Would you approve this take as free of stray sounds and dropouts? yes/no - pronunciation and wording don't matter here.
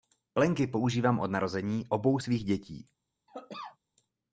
no